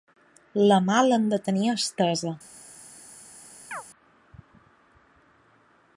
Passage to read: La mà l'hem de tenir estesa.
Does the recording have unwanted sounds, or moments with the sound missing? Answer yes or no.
yes